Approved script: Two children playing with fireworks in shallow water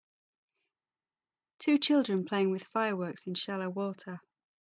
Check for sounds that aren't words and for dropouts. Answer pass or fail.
pass